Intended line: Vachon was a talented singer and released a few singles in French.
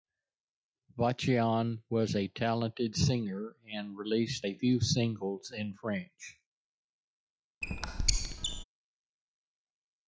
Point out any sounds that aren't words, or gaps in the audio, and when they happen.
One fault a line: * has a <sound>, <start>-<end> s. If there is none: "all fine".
* has a squeak, 7.6-8.6 s